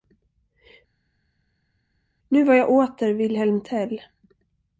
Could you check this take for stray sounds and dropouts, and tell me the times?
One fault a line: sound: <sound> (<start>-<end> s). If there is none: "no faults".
no faults